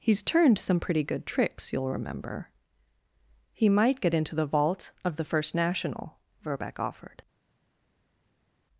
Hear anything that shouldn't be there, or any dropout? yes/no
no